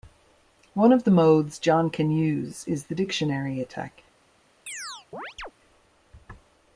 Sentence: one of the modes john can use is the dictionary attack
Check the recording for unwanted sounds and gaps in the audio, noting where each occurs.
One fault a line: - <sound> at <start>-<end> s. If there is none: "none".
- chirp at 4.7-5.5 s